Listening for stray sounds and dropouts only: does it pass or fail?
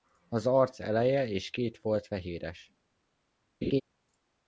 fail